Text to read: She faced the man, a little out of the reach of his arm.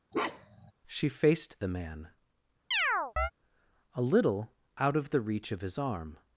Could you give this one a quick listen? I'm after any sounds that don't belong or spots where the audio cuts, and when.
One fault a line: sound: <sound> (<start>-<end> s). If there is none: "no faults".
sound: bark (0.1-0.7 s)
sound: chirp (2.7-3.3 s)